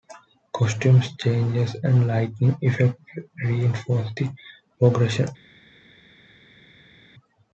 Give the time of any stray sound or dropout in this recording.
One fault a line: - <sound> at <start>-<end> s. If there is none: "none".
none